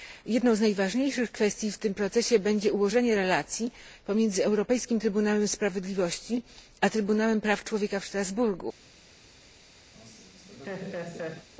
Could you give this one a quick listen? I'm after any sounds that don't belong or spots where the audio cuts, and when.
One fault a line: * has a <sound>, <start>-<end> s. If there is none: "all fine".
* has a laugh, 9.9-11.5 s